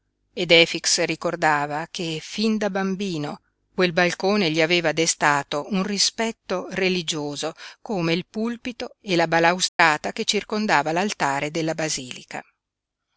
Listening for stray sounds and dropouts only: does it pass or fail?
fail